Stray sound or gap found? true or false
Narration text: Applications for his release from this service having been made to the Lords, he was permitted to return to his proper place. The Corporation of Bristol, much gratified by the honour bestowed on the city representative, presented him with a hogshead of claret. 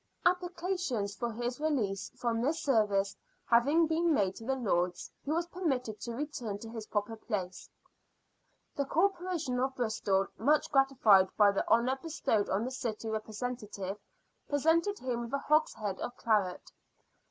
false